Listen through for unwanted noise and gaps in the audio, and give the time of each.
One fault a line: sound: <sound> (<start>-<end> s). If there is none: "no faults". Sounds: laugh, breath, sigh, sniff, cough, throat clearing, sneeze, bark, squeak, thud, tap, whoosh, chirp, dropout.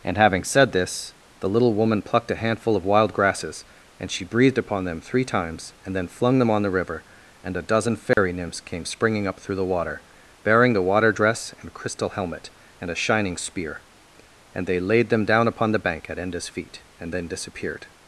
sound: dropout (8.1-8.2 s)